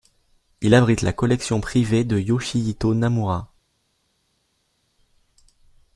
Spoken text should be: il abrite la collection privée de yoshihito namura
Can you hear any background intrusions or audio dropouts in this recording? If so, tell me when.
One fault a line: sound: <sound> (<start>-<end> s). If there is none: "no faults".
no faults